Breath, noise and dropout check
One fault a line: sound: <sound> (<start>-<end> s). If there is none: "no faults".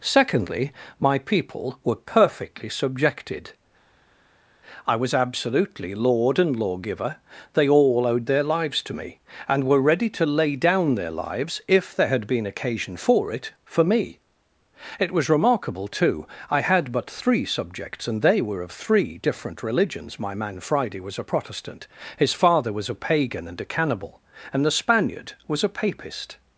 no faults